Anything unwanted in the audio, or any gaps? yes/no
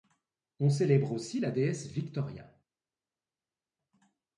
no